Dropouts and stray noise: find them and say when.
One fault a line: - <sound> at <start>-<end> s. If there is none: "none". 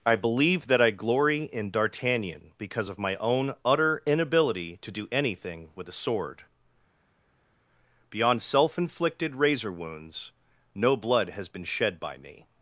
none